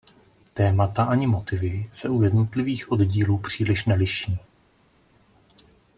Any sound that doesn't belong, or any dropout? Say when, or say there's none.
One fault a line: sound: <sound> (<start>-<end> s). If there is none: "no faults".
no faults